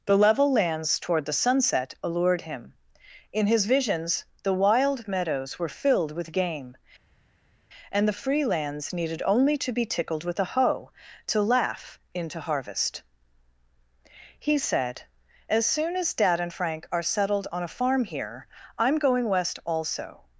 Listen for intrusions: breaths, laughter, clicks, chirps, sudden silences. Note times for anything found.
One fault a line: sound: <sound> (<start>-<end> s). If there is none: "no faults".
no faults